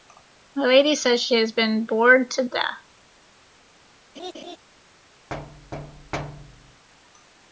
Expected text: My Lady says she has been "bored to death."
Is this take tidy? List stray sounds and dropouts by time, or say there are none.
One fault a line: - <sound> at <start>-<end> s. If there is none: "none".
- laugh at 4.2-4.6 s
- thud at 5.3-6.8 s